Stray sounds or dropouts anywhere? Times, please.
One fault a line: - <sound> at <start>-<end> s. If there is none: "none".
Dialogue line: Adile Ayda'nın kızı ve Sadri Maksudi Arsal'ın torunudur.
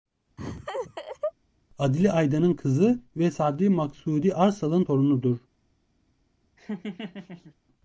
- laugh at 0.4-1.3 s
- laugh at 6.6-7.5 s